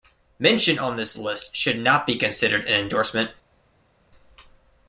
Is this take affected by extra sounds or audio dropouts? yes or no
no